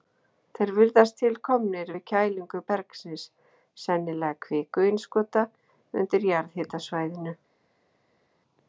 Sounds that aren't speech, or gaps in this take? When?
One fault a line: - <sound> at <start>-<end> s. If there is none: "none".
none